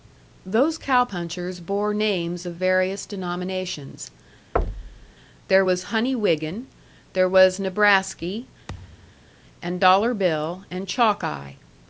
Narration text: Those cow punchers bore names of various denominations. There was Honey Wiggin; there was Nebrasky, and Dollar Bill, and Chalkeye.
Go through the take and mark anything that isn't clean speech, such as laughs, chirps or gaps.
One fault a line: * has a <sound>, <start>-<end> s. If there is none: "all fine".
* has a thud, 4.6-5.1 s
* has a thud, 8.7-9.3 s